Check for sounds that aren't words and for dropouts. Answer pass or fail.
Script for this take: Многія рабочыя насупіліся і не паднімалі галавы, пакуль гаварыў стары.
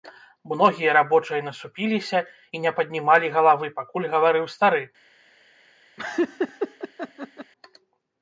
fail